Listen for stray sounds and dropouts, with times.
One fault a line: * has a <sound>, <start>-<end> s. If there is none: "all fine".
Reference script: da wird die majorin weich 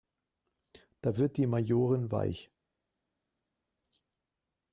all fine